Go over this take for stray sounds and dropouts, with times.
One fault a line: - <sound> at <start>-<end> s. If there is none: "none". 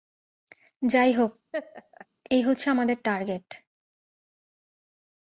- laugh at 1.5-2.1 s